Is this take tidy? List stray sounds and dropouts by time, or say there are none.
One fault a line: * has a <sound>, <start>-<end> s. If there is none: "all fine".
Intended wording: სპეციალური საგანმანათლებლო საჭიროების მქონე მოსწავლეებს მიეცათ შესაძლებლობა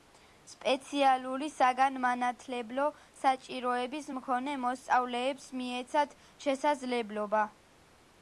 all fine